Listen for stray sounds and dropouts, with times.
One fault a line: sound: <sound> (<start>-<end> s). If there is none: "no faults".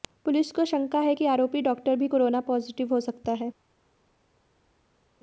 no faults